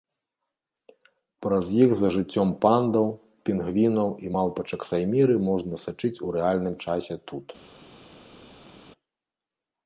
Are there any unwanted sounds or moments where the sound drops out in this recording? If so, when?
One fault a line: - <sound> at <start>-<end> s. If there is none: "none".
none